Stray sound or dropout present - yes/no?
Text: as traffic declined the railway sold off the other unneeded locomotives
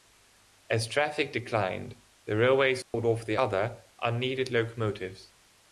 yes